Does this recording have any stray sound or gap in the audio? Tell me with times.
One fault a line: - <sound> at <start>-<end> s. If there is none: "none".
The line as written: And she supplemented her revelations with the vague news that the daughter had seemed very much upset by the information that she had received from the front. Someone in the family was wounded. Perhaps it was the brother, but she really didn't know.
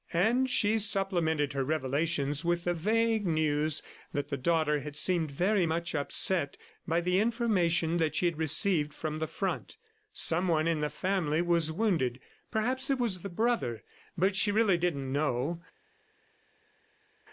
none